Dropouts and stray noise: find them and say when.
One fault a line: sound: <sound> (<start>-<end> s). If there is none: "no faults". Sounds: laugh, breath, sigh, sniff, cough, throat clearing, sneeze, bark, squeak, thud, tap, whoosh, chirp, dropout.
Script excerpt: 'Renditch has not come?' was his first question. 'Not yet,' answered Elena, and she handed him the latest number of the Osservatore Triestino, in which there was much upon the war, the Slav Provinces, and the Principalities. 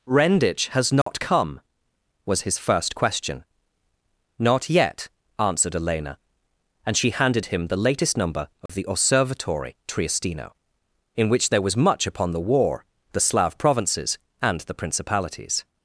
sound: dropout (1.0-1.1 s)
sound: dropout (8.7-8.7 s)